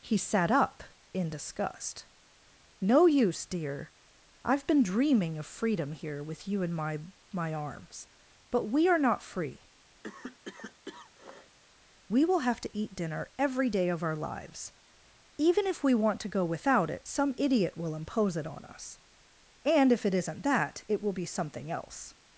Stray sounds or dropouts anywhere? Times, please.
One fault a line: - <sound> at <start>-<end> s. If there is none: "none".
- cough at 10.0-11.6 s